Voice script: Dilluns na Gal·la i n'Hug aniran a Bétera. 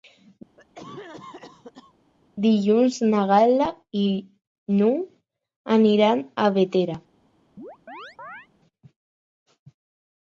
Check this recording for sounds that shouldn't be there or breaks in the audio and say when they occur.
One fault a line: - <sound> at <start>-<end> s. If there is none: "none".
- cough at 0.6-1.9 s
- chirp at 7.6-8.5 s